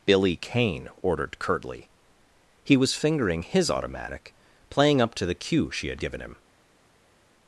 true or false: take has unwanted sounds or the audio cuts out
false